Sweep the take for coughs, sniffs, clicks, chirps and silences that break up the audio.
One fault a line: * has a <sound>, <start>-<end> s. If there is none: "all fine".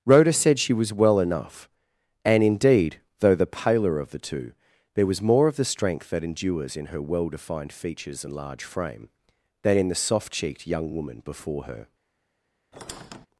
* has a squeak, 12.7-13.3 s